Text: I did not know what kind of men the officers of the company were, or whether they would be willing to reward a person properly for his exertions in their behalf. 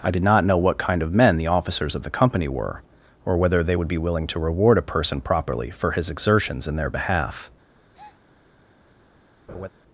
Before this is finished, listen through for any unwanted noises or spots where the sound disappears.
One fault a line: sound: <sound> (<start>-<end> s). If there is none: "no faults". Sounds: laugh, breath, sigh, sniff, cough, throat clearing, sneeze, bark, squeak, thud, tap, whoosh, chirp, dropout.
sound: breath (7.9-8.2 s)
sound: laugh (9.5-9.7 s)